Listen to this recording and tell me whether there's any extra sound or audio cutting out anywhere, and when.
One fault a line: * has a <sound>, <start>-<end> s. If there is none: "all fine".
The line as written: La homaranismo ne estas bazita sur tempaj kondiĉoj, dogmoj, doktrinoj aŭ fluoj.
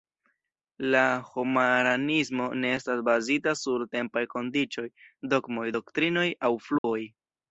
* has a dropout, 6.8-6.8 s